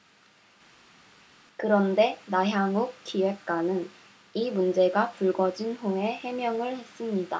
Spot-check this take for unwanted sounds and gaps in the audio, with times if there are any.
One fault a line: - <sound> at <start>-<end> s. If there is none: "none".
none